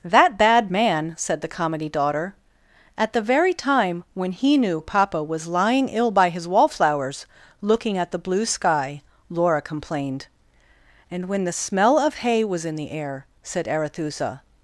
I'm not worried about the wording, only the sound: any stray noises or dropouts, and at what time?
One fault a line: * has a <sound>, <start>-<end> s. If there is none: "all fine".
all fine